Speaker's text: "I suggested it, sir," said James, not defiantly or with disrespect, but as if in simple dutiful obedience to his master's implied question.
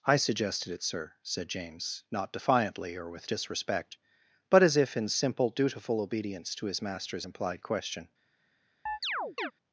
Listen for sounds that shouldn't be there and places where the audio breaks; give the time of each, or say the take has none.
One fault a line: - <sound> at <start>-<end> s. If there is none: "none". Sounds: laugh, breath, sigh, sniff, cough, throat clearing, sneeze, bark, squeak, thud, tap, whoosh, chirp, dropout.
- chirp at 8.9-9.5 s